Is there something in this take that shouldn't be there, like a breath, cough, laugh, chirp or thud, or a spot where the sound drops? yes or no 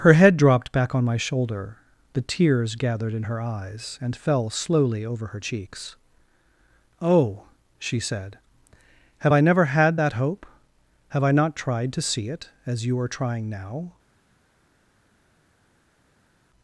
no